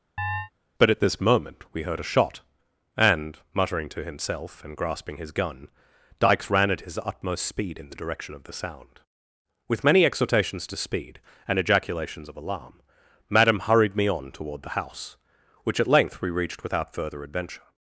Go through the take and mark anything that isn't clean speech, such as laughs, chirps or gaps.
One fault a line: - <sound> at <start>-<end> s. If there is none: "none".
- chirp at 0.2-0.5 s